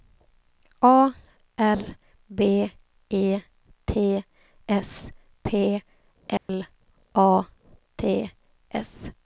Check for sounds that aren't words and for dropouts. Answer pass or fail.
fail